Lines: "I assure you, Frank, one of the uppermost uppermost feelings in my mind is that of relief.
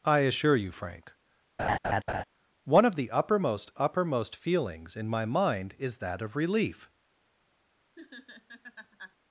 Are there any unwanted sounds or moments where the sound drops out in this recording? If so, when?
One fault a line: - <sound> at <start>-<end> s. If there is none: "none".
- laugh at 1.6-2.2 s
- laugh at 8.0-9.2 s